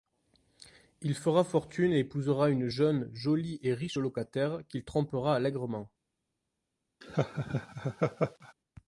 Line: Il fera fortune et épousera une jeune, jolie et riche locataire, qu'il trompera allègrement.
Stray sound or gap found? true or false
true